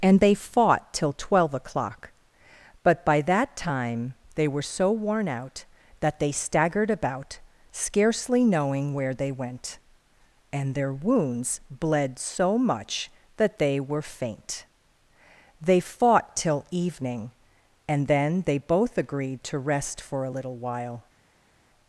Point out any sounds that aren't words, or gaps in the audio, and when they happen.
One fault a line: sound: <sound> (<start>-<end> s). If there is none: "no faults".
no faults